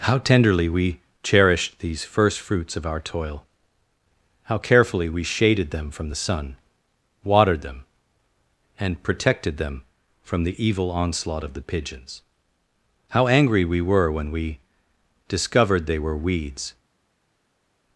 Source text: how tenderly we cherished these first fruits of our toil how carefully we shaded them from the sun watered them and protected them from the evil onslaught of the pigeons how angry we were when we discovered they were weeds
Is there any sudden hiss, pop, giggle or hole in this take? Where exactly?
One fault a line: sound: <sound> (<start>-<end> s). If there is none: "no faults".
no faults